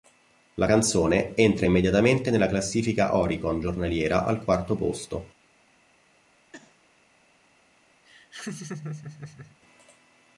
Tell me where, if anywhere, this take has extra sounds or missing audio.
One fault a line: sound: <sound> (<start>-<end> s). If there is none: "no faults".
sound: sneeze (6.5-6.8 s)
sound: laugh (8.0-9.6 s)